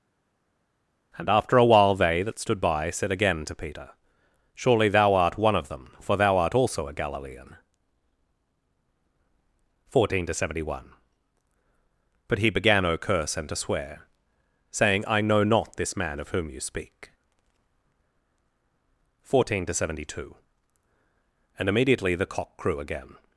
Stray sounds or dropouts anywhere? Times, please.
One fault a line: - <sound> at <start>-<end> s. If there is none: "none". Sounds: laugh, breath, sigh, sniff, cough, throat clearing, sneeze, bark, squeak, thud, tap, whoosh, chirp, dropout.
none